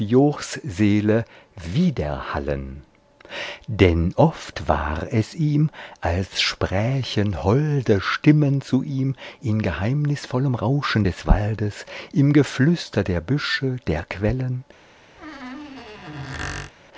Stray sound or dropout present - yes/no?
yes